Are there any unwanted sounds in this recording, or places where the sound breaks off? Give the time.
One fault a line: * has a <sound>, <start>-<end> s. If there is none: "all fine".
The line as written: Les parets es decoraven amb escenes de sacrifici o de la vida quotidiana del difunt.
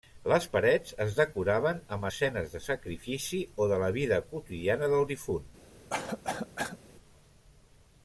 * has a cough, 5.9-6.8 s